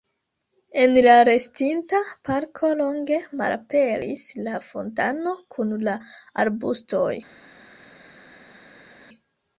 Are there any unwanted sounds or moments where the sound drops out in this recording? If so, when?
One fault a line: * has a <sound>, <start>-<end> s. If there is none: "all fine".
all fine